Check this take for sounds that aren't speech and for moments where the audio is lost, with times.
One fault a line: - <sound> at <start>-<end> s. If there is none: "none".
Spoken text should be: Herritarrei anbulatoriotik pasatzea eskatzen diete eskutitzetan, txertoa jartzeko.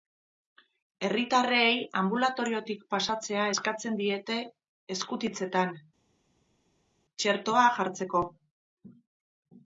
none